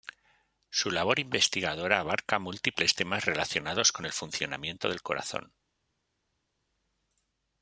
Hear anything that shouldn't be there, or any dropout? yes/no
no